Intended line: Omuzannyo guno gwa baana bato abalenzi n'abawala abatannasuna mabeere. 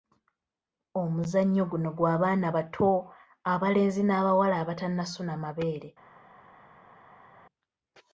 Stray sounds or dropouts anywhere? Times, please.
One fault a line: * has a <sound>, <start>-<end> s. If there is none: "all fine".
all fine